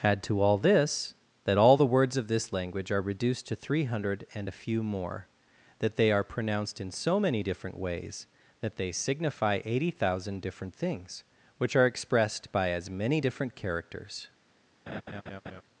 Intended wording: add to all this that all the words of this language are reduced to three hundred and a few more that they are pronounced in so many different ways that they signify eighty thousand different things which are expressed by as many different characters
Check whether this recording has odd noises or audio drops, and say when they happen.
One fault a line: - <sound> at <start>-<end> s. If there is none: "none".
- laugh at 14.9-15.6 s